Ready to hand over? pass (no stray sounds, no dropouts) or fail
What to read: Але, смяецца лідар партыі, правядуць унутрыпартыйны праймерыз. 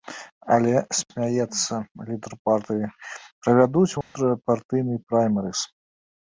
fail